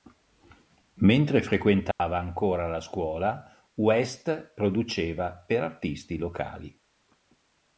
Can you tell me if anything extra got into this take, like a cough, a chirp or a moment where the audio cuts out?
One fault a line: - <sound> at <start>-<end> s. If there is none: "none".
- dropout at 1.9-2.0 s